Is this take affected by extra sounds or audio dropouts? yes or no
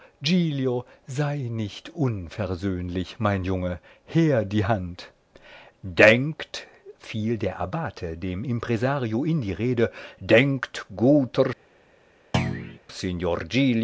yes